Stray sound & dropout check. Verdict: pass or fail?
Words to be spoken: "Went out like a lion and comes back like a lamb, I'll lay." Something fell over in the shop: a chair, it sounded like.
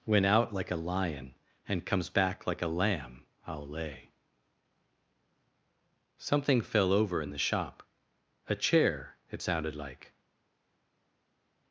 pass